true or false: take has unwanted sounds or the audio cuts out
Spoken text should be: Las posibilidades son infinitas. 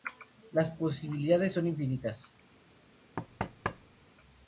true